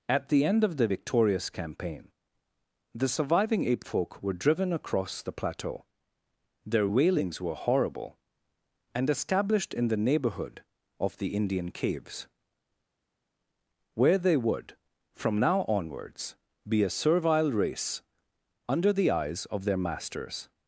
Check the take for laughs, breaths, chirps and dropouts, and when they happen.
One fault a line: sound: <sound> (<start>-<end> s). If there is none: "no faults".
no faults